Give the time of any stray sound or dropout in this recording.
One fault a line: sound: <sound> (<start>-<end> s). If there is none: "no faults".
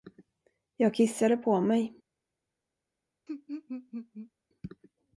sound: laugh (3.3-4.3 s)